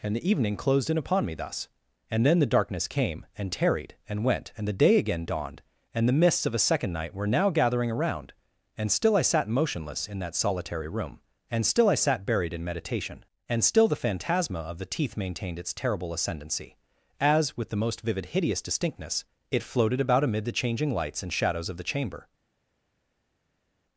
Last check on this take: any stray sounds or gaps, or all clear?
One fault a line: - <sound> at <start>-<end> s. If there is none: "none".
none